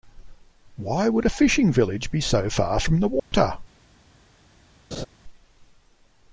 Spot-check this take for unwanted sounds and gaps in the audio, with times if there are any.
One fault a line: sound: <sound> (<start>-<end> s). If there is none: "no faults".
sound: dropout (3.2-3.3 s)
sound: laugh (4.9-5.1 s)